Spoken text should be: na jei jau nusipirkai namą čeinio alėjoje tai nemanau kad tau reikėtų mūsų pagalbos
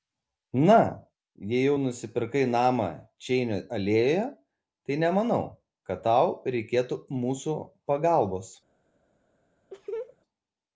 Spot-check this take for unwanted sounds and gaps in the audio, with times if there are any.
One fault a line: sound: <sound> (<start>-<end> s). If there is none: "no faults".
sound: laugh (9.7-10.2 s)